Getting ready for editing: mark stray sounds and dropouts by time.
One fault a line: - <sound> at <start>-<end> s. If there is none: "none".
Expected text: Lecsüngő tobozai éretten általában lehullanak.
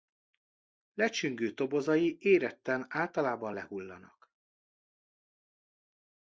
none